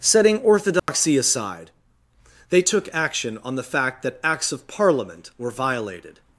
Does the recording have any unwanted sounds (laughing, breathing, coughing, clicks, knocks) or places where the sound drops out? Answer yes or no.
yes